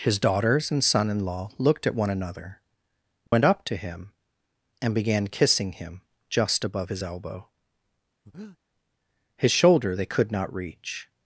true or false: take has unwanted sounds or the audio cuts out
true